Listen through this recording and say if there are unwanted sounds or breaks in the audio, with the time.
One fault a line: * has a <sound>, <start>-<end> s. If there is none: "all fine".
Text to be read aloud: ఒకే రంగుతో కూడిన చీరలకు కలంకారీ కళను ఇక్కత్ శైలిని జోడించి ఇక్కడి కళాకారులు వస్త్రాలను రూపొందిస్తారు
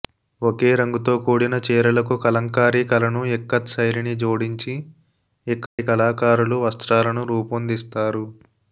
* has a dropout, 5.7-5.8 s